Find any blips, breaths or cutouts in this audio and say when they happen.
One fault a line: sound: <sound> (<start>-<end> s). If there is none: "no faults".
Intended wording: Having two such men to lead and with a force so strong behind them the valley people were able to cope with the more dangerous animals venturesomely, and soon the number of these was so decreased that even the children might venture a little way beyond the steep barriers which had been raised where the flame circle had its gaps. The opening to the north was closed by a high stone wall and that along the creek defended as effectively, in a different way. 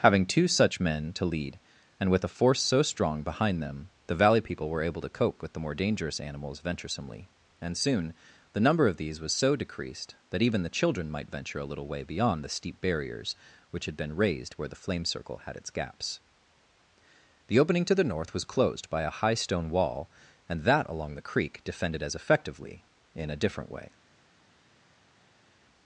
no faults